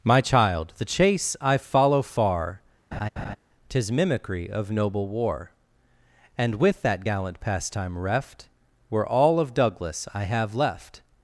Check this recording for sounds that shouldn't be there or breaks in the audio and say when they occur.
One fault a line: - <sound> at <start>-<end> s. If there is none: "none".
- laugh at 2.9-3.4 s